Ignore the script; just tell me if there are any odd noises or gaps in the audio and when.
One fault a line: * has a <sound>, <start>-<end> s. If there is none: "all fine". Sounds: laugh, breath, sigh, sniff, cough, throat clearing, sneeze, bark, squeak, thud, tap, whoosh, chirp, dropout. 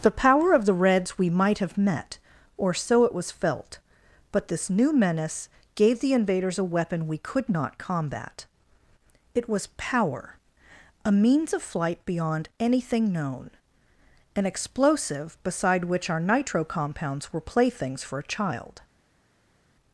all fine